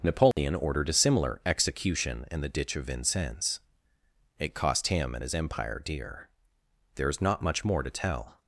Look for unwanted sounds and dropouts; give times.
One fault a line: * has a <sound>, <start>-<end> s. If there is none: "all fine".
* has a dropout, 0.3-0.4 s